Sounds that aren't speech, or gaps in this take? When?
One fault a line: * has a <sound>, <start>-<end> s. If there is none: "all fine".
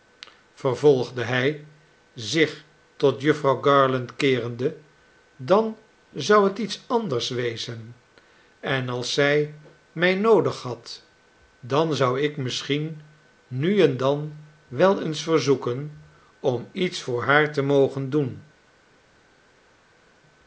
all fine